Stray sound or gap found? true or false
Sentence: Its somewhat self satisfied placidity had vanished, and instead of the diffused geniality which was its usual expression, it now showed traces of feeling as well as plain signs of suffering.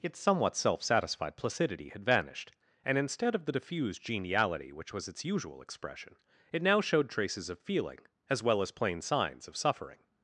false